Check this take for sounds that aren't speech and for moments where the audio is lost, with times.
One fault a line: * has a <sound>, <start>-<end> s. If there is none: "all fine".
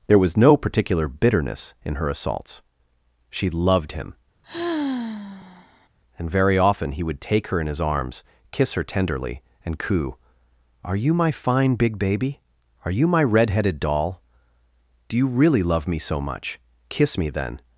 * has a sigh, 4.4-5.9 s